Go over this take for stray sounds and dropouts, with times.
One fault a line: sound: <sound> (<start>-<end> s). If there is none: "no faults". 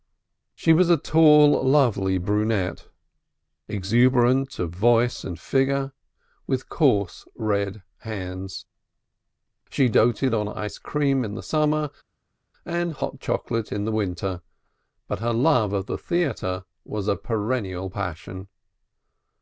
no faults